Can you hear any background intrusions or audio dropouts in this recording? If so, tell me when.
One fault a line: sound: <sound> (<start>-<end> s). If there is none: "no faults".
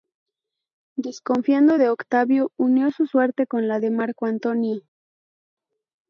no faults